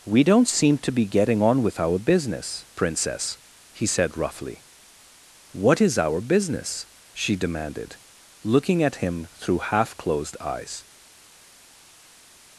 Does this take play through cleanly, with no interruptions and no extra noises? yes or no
yes